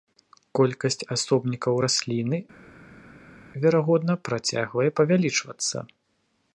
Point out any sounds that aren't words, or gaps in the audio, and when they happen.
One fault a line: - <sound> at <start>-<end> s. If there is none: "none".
none